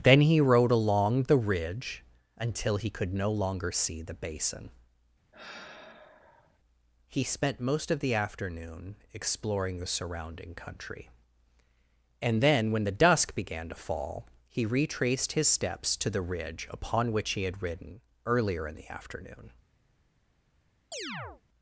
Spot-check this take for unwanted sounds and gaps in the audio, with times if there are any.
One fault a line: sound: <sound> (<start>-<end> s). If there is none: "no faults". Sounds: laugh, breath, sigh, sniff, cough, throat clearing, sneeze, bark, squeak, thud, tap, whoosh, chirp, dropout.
sound: sigh (5.3-6.6 s)
sound: chirp (20.9-21.4 s)